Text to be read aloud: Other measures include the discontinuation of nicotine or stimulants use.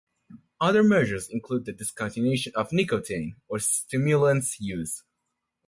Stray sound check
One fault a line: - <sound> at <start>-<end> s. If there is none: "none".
none